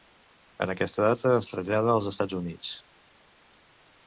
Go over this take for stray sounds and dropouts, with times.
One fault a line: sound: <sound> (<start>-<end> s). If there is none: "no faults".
no faults